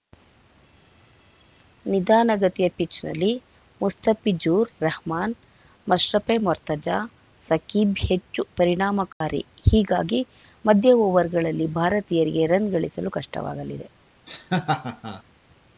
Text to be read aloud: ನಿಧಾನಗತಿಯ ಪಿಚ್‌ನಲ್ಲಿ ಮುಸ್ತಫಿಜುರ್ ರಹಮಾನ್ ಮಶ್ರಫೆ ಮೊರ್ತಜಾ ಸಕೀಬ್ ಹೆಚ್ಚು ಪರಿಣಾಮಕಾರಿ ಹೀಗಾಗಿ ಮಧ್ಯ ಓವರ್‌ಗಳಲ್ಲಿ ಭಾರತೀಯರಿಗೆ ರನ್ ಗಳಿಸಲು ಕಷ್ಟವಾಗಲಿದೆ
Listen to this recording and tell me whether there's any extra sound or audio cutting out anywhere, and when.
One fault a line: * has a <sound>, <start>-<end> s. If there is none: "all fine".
* has a dropout, 9.1-9.2 s
* has a laugh, 14.3-15.2 s